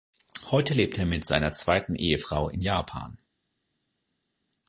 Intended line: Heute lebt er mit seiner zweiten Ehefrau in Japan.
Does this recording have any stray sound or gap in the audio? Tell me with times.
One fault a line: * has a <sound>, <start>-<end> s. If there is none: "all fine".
all fine